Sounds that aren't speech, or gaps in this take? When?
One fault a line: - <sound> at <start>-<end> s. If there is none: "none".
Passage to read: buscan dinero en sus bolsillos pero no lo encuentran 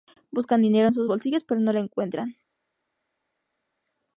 none